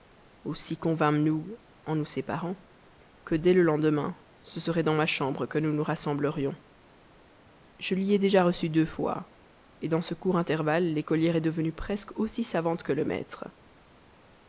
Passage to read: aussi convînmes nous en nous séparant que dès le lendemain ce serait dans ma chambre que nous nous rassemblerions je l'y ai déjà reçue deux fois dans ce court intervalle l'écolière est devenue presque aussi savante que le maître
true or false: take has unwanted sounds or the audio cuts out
false